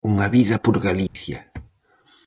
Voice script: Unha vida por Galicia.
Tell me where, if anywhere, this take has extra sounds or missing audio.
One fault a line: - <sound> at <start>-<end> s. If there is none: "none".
- dropout at 1.1-1.2 s